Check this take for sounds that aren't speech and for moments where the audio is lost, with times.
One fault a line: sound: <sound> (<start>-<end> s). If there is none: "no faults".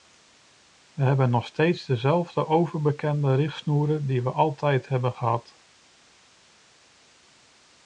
no faults